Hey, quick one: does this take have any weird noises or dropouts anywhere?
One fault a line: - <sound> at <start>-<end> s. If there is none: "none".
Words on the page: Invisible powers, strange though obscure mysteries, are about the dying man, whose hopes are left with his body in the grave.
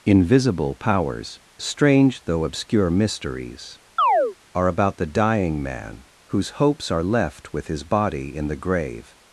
- chirp at 4.0-4.4 s